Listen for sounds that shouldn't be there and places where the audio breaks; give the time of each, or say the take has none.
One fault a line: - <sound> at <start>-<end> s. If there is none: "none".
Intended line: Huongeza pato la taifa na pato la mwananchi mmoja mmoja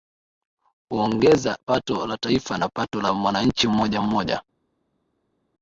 none